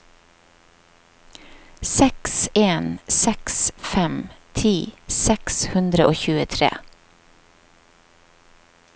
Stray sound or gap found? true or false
false